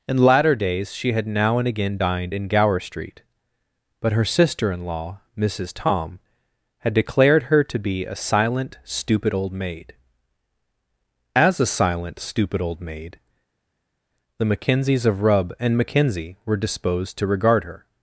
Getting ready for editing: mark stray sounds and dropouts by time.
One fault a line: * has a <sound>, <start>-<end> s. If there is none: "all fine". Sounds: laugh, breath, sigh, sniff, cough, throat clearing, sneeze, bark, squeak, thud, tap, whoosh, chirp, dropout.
all fine